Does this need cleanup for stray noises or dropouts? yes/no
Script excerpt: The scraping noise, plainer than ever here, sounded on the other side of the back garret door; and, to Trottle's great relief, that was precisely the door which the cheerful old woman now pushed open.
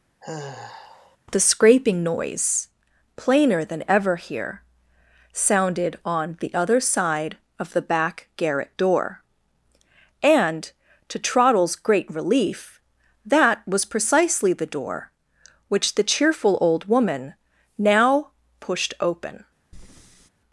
yes